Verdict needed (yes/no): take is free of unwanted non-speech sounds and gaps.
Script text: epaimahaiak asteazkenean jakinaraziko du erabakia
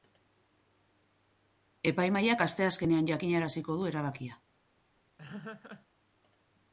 no